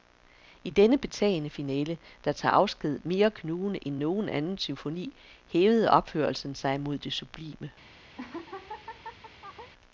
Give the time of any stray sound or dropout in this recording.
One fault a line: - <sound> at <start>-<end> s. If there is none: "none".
- laugh at 8.2-9.7 s